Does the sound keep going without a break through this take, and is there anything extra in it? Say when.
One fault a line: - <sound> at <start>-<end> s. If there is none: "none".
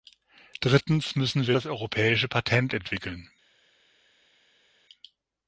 none